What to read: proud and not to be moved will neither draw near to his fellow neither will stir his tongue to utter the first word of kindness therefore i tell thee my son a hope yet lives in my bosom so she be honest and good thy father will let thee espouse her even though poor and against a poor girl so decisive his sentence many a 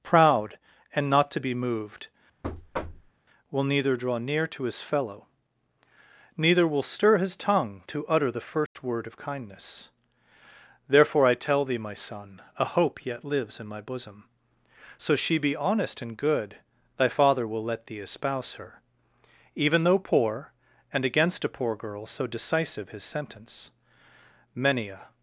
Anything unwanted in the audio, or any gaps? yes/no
yes